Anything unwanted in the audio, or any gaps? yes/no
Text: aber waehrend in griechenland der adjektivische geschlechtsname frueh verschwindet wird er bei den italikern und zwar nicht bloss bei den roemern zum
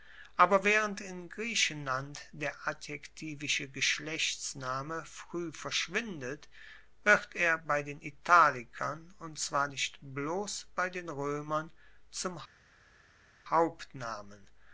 no